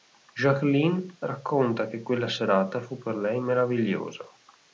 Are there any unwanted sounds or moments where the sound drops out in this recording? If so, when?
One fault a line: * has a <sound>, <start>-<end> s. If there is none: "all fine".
all fine